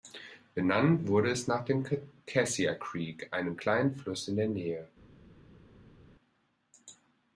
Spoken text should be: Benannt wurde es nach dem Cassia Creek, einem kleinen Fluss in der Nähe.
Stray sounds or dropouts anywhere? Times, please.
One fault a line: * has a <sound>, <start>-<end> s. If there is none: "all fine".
all fine